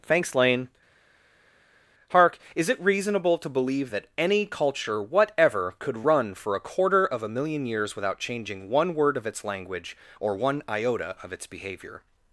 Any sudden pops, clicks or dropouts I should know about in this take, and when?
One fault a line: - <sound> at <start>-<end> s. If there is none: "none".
none